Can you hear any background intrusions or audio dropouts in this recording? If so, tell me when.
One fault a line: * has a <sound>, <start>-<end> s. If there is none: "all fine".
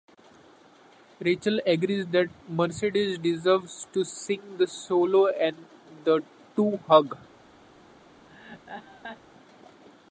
* has a laugh, 8.3-9.2 s